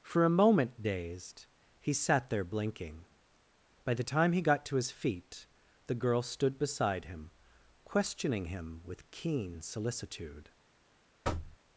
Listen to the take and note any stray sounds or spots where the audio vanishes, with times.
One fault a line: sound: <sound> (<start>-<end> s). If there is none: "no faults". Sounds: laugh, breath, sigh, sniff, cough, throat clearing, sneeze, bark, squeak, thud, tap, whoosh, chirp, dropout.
sound: thud (11.2-11.6 s)